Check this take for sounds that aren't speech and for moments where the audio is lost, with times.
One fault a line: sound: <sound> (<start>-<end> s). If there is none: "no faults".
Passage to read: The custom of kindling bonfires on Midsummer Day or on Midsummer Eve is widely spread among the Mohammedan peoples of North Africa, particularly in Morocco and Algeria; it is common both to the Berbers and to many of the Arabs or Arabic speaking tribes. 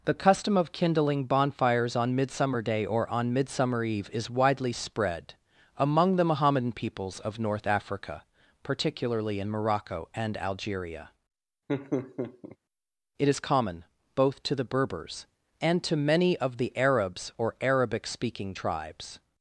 sound: laugh (11.7-12.6 s)